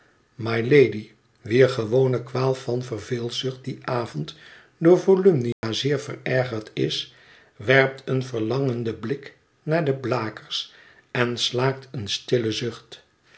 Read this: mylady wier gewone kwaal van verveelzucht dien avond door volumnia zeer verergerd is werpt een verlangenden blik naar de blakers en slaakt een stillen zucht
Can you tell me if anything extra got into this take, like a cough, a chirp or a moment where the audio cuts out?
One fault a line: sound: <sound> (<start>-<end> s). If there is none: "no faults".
sound: dropout (5.5-5.6 s)